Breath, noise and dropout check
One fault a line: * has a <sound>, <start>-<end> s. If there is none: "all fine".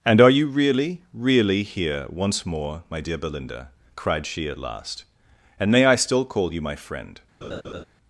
* has a laugh, 7.4-7.8 s